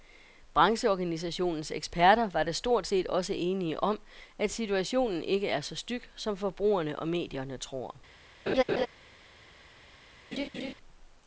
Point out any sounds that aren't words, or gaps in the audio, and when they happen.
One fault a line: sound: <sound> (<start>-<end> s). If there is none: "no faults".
sound: laugh (8.5-8.9 s)
sound: laugh (10.3-10.7 s)